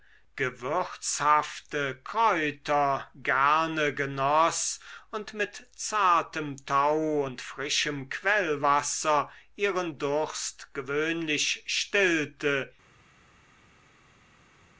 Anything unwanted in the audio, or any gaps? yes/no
no